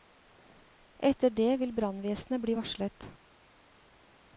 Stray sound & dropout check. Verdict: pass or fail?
pass